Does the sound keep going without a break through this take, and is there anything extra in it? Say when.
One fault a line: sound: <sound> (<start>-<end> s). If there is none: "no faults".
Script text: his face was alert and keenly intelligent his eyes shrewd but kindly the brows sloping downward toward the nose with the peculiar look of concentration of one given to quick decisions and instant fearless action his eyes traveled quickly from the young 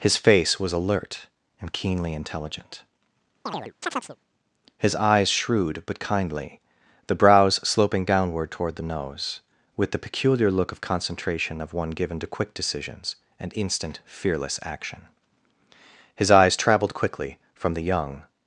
sound: chirp (3.5-4.2 s)